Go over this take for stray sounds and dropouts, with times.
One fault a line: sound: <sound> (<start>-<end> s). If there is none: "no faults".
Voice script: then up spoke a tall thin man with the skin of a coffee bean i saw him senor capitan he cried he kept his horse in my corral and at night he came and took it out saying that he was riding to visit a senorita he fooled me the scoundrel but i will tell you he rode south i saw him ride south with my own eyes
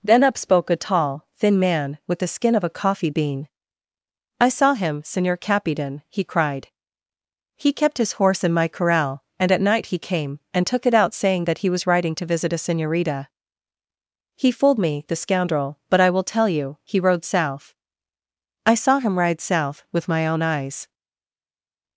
no faults